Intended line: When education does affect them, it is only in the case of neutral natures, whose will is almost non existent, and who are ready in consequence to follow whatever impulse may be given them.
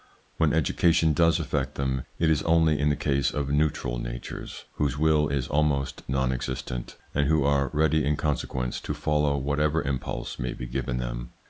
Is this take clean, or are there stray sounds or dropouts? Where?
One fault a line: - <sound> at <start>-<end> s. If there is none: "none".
none